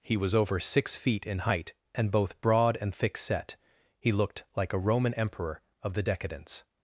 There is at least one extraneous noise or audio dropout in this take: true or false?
false